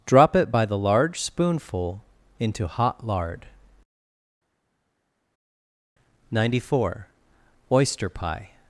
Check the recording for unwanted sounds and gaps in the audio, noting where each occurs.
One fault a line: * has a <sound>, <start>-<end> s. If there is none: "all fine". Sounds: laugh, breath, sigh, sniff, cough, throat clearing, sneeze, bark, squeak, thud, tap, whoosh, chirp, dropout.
all fine